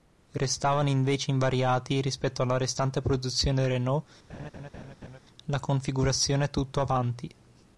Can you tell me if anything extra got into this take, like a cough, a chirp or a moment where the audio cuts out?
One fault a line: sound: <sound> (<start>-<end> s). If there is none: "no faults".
sound: laugh (4.3-5.2 s)